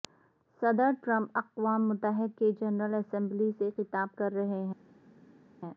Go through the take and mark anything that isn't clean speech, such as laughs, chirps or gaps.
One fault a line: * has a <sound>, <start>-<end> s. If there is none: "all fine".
all fine